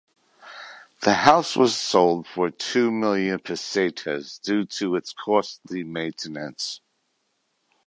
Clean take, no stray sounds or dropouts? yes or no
yes